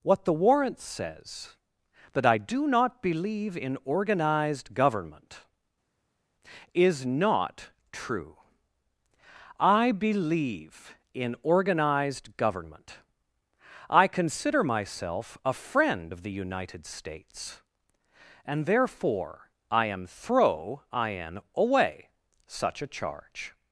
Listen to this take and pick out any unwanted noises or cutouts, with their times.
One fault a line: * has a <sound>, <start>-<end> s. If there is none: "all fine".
all fine